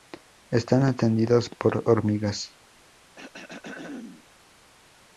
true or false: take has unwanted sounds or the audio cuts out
true